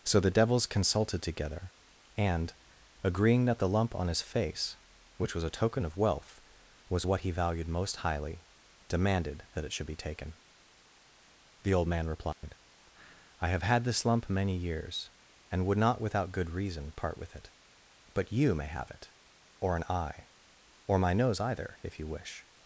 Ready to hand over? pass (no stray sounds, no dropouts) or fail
fail